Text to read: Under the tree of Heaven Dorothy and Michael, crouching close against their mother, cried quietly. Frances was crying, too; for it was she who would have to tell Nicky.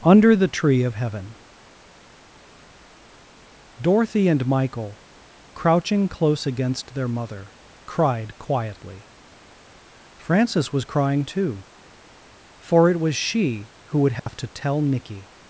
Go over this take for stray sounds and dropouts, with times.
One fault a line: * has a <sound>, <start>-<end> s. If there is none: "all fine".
* has a dropout, 14.2-14.3 s